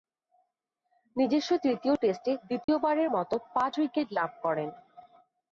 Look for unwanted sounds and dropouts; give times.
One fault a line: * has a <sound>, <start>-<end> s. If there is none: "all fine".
* has a dropout, 2.6-2.7 s